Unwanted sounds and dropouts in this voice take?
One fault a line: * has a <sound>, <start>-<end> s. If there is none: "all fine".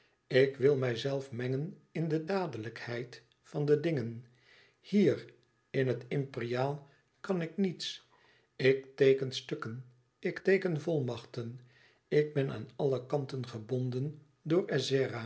all fine